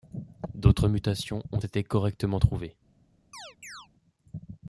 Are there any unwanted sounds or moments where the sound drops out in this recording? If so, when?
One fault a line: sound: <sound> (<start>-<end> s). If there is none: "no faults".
sound: chirp (3.3-3.9 s)